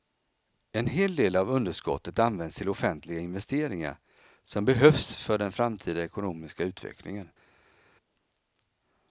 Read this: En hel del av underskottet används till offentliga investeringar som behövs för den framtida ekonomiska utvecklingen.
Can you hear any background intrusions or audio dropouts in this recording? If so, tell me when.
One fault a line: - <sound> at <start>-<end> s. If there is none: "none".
none